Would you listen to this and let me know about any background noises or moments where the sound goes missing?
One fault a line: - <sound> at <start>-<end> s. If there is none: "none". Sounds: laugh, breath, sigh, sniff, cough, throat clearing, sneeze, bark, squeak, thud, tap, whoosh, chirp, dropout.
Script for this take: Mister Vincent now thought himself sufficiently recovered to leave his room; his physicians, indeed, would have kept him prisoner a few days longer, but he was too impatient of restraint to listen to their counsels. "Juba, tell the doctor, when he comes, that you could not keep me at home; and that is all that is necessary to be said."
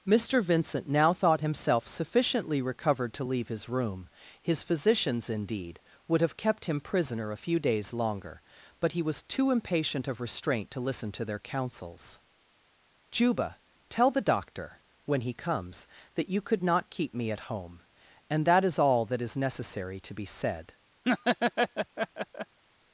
- laugh at 21.0-22.6 s